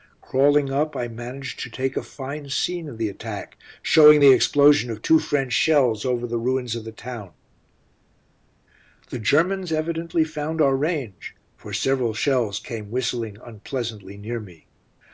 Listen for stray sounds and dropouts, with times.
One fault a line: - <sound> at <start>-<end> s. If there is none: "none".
none